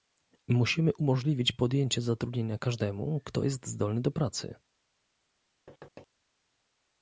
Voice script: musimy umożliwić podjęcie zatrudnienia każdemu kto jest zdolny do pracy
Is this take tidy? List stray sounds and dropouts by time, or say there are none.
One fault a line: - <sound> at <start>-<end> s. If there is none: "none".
- thud at 5.7-6.1 s